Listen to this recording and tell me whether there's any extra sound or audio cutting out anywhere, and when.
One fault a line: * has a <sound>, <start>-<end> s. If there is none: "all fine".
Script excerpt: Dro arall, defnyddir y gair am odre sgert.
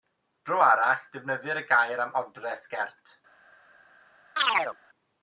* has a chirp, 4.4-4.8 s